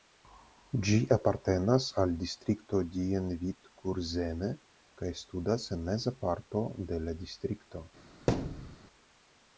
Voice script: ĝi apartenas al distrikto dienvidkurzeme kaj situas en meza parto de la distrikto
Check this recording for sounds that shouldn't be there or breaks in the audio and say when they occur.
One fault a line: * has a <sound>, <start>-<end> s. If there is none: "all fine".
* has a thud, 8.3-8.8 s